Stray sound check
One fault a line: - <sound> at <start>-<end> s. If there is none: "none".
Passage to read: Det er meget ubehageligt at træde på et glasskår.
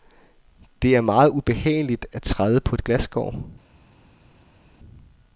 none